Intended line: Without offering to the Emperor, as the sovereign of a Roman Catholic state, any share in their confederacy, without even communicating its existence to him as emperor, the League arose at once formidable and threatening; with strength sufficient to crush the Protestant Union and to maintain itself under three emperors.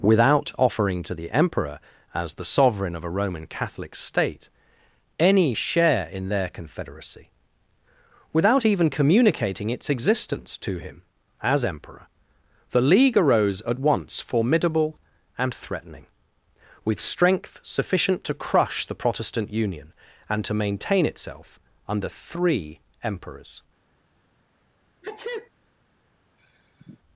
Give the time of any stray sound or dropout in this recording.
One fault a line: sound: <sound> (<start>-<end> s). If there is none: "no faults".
sound: sneeze (25.0-25.5 s)
sound: sigh (26.4-27.0 s)